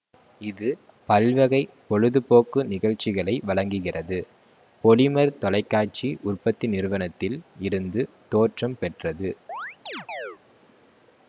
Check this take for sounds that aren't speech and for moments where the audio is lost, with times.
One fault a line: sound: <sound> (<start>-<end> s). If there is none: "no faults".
sound: chirp (9.5-10.4 s)